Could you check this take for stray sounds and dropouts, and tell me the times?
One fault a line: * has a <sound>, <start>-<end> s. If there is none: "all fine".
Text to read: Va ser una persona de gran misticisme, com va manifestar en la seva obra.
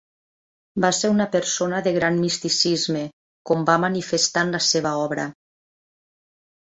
all fine